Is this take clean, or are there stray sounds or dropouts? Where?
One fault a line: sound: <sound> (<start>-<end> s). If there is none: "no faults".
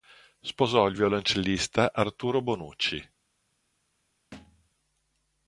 sound: thud (4.3-4.7 s)